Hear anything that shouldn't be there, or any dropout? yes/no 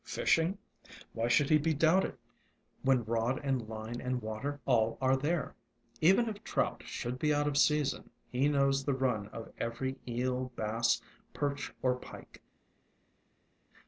no